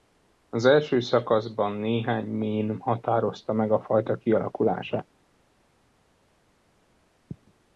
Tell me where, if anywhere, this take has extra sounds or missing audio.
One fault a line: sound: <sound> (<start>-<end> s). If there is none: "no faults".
no faults